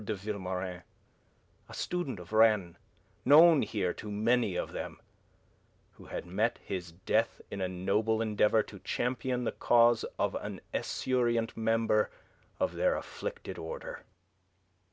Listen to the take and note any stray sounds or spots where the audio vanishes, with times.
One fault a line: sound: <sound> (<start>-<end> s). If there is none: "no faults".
no faults